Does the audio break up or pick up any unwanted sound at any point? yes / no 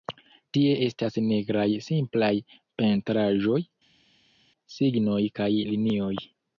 no